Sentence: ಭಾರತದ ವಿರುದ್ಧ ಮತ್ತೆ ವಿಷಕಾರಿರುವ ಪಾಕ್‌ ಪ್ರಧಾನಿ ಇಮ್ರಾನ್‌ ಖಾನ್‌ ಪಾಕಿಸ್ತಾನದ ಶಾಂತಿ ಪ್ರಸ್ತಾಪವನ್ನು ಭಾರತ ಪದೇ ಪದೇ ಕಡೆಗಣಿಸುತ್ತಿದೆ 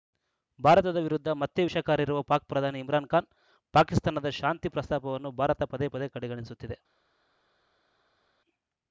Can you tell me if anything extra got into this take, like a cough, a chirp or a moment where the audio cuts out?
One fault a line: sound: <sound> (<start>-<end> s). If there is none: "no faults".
no faults